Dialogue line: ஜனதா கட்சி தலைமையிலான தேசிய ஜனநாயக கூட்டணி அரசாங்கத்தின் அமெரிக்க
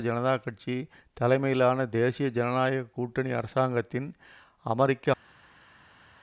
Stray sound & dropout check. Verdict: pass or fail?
pass